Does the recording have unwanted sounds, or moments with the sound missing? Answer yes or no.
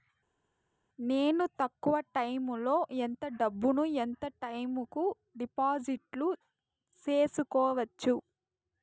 no